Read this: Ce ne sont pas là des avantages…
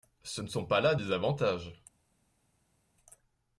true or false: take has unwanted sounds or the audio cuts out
false